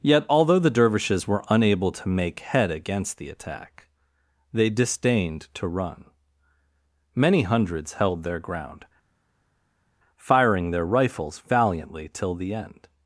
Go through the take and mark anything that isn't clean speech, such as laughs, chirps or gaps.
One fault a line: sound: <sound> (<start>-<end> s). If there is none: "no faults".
no faults